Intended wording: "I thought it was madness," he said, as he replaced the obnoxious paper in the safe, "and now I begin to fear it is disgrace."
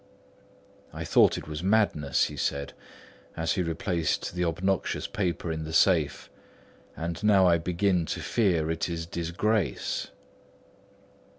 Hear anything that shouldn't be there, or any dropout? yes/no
no